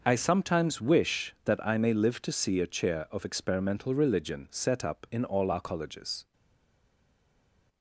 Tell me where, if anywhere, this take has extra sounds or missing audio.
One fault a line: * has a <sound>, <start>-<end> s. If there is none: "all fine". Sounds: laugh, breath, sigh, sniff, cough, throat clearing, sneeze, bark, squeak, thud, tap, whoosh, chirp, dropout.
all fine